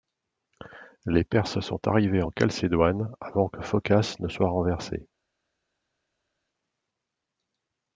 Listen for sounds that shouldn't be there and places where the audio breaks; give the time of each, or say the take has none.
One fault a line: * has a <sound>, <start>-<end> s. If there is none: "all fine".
all fine